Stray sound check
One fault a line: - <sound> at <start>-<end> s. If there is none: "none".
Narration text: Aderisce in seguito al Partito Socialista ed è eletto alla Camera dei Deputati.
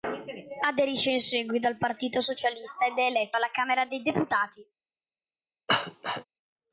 - cough at 5.7-6.2 s